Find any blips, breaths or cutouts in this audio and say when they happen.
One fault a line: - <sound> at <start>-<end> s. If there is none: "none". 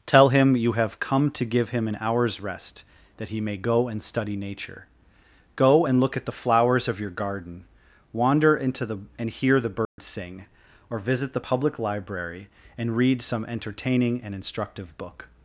- dropout at 9.8-10.0 s